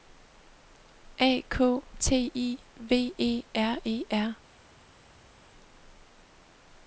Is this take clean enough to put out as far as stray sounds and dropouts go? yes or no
yes